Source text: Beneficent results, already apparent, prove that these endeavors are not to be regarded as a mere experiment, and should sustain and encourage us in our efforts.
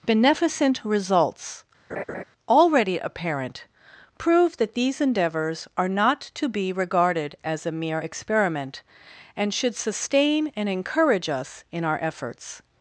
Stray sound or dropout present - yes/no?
yes